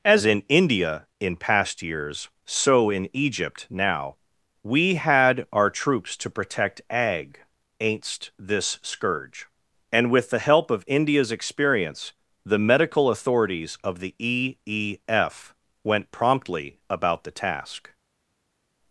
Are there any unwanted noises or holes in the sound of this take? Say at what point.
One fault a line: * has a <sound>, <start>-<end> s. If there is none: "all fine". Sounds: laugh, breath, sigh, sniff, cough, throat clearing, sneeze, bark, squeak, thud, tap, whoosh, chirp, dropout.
all fine